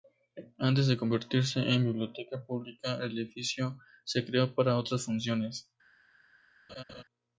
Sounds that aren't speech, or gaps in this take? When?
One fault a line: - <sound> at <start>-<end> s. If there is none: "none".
- laugh at 6.7-7.0 s